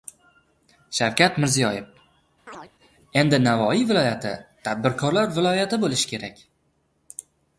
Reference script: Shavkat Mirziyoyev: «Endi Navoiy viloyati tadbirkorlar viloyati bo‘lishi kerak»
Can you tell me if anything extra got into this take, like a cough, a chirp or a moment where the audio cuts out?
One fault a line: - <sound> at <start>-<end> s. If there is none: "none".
- chirp at 2.5-2.7 s